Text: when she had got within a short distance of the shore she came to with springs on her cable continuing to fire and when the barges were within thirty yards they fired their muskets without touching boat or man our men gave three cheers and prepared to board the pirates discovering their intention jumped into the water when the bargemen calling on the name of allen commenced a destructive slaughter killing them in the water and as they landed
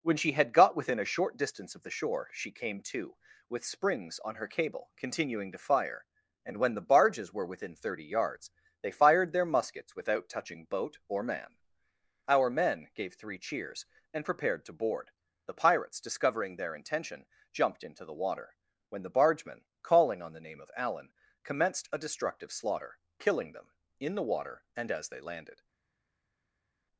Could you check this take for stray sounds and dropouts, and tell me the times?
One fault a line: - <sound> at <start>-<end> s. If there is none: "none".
none